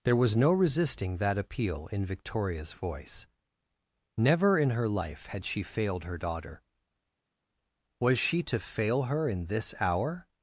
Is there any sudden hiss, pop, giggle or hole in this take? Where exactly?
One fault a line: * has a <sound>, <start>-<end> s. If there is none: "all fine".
all fine